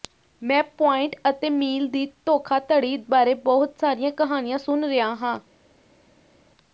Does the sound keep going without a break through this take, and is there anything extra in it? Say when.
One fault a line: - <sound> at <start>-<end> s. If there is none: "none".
none